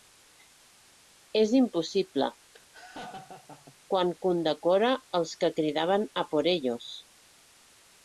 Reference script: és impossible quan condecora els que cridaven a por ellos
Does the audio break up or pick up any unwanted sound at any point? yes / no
yes